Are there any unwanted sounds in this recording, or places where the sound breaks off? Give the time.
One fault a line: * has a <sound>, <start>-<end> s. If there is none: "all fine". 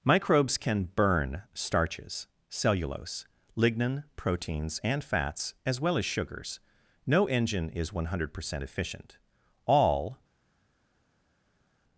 all fine